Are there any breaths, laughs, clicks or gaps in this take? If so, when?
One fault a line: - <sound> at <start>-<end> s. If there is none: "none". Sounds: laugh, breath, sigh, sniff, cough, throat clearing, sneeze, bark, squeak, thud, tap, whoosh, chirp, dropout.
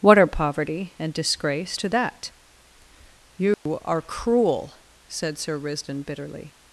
- dropout at 3.5-3.7 s